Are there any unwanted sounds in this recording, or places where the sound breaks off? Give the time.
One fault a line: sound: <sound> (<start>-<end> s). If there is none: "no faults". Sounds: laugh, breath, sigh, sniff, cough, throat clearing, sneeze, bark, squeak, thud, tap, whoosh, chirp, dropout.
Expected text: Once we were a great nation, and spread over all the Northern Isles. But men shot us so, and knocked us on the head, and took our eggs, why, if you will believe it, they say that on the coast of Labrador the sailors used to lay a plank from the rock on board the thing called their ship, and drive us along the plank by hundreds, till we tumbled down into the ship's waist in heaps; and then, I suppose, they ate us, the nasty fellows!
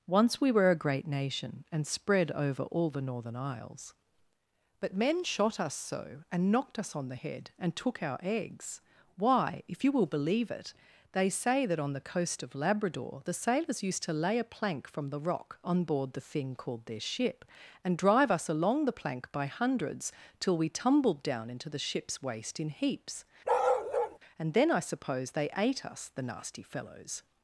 sound: bark (23.4-24.2 s)